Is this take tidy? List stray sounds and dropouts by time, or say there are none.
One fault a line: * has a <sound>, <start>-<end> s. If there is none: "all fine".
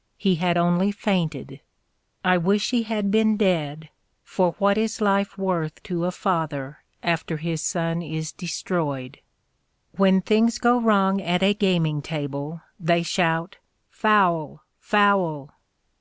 all fine